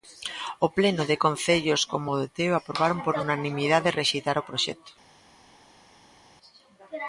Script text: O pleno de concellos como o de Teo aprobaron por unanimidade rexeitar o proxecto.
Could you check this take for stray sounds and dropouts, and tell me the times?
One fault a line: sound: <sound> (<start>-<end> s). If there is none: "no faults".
no faults